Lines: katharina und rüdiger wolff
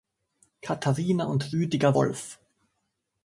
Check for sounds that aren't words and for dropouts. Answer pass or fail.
pass